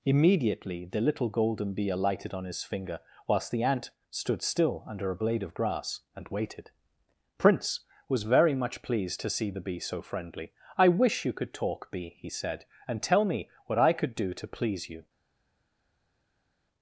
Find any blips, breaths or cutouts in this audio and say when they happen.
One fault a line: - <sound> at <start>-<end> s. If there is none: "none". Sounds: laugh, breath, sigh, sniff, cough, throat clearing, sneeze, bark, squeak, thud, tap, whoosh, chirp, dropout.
none